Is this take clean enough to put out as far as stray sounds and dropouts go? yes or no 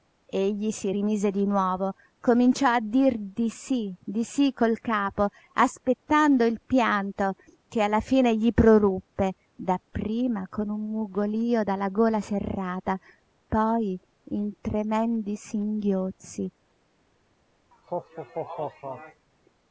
no